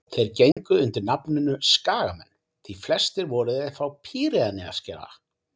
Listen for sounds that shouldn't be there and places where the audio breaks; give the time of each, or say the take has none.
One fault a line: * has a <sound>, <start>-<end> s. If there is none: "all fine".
* has a dropout, 0.5-0.6 s